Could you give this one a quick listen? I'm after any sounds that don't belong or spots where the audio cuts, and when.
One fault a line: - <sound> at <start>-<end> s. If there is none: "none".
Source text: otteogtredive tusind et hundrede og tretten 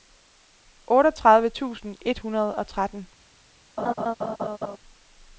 - laugh at 3.8-4.8 s